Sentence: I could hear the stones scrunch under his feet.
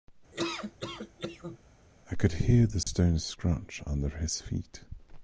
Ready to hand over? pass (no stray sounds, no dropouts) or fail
fail